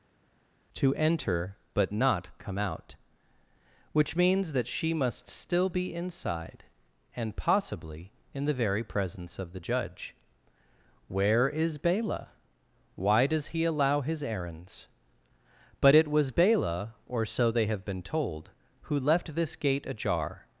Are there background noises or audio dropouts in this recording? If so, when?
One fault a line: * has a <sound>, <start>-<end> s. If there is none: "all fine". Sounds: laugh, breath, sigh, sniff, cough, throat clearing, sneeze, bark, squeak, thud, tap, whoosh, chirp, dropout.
all fine